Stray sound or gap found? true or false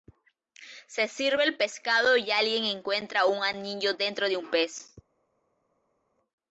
false